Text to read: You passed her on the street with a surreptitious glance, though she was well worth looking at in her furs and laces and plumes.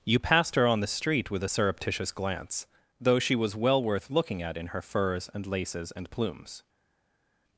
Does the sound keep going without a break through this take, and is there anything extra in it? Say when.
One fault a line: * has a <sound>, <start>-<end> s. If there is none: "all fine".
all fine